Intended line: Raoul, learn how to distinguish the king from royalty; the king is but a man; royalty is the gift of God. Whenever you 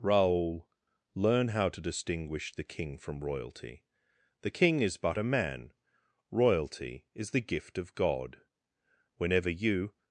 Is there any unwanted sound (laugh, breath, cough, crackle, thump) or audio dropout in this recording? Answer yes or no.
no